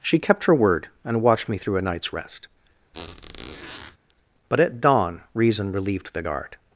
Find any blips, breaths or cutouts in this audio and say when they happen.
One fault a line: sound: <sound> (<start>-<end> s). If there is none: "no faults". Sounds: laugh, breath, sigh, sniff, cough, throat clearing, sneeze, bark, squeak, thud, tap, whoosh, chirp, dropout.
sound: squeak (2.9-4.0 s)